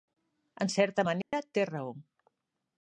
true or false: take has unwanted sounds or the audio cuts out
true